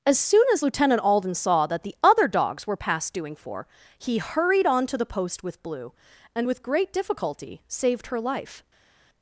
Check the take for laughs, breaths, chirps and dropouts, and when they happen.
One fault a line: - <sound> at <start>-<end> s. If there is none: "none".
none